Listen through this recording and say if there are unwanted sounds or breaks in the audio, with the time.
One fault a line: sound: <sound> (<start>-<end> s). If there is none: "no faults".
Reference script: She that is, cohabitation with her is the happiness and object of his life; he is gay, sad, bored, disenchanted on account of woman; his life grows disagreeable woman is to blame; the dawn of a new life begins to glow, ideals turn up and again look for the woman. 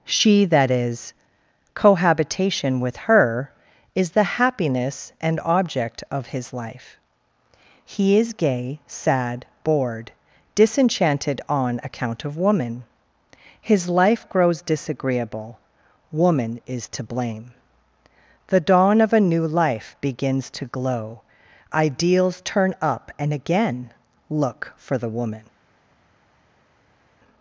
no faults